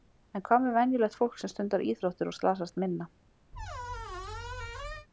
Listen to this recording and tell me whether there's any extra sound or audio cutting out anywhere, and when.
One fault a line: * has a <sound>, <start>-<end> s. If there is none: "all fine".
* has a squeak, 3.5-5.1 s